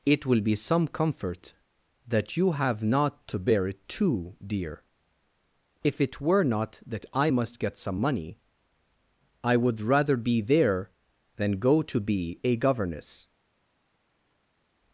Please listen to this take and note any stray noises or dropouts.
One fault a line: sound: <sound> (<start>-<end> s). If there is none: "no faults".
no faults